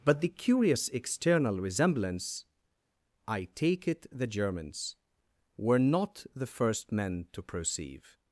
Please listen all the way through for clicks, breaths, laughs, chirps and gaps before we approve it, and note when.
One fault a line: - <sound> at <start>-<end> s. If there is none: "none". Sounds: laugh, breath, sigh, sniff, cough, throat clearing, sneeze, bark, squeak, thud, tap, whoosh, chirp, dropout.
none